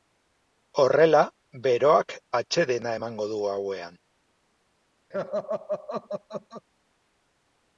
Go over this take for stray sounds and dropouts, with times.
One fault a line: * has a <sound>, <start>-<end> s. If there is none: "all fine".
* has a laugh, 5.1-6.6 s